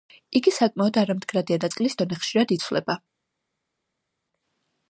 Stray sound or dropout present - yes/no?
no